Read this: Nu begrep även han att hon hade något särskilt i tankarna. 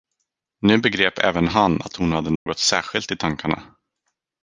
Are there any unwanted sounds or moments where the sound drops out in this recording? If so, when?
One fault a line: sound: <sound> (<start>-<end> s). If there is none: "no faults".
sound: dropout (2.4-2.5 s)